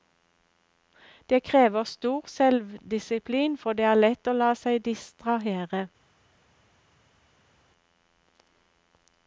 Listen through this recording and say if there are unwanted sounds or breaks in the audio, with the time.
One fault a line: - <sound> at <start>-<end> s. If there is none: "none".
none